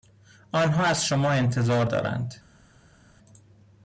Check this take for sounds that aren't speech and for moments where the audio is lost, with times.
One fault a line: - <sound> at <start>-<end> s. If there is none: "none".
none